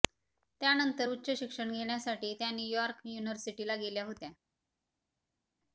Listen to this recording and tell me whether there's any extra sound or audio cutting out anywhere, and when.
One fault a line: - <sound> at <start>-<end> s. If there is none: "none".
none